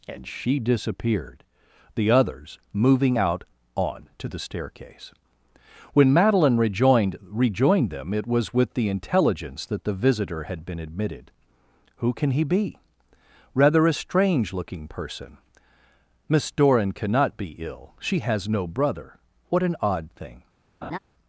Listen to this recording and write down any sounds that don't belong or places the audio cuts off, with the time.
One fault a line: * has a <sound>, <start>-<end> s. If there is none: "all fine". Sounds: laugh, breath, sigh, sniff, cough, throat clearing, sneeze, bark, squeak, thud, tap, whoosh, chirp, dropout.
* has a laugh, 20.8-21.0 s